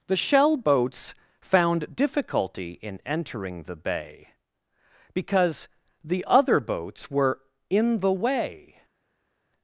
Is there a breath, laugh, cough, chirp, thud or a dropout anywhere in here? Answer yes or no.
no